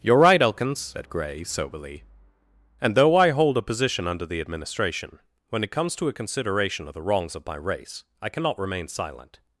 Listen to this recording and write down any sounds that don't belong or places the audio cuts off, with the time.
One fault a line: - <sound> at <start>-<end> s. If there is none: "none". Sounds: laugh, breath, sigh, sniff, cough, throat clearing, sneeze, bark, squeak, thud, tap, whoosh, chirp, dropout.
none